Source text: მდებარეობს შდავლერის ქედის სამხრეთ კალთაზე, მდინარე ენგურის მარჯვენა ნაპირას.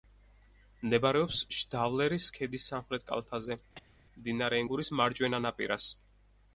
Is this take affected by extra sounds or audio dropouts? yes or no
yes